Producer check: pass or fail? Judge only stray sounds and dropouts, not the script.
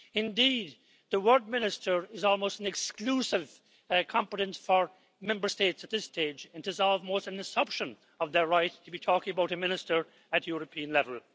pass